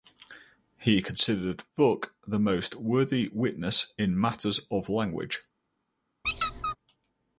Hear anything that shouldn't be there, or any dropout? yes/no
yes